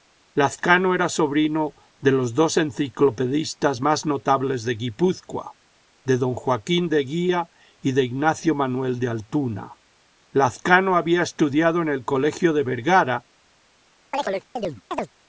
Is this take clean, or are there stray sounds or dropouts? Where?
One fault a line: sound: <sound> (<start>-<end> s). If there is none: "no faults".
sound: chirp (14.1-15.1 s)